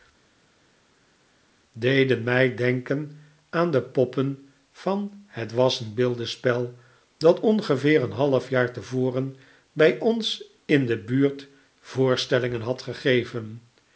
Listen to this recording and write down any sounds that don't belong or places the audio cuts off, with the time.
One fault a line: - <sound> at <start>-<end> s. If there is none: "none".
none